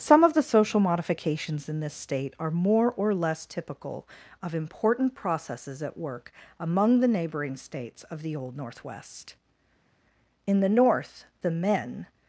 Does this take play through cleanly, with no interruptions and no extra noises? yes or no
yes